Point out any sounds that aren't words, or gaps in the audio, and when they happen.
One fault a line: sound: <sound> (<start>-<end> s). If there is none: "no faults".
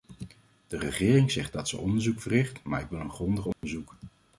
sound: dropout (3.5-3.6 s)